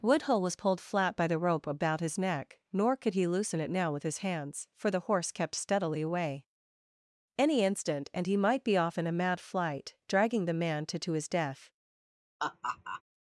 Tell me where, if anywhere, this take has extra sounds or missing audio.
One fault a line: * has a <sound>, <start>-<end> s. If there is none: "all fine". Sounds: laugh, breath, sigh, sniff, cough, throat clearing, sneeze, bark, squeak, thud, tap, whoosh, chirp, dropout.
* has a laugh, 12.4-13.0 s